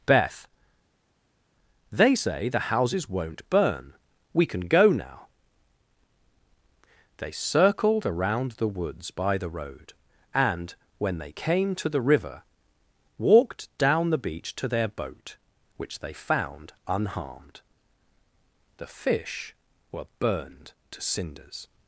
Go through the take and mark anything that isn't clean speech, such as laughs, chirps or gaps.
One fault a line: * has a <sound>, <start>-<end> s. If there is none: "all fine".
all fine